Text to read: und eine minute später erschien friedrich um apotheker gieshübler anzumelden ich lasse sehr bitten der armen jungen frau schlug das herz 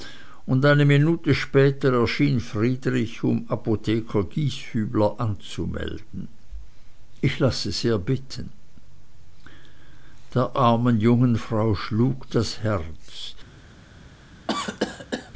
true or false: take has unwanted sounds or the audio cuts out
true